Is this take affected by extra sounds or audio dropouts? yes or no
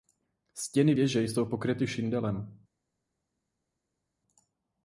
no